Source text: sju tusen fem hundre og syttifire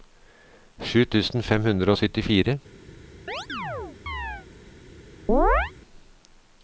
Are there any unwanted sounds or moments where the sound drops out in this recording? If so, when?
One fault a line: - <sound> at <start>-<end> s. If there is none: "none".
- chirp at 3.3-4.5 s
- chirp at 5.3-5.7 s